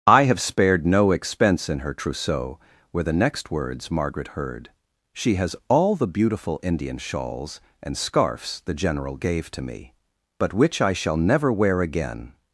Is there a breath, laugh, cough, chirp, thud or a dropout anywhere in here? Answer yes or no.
no